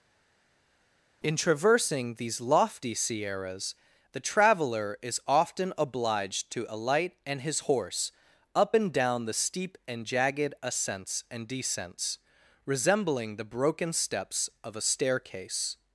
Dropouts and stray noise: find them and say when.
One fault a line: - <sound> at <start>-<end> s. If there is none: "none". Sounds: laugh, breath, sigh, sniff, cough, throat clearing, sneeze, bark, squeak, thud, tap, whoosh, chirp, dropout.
none